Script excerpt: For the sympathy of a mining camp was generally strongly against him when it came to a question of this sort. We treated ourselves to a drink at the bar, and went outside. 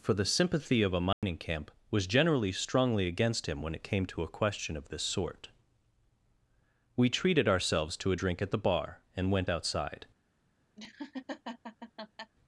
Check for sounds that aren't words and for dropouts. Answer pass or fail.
fail